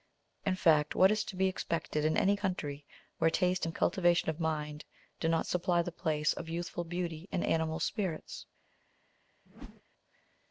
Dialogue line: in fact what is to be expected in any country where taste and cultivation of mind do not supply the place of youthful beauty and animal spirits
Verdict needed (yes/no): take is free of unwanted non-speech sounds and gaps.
no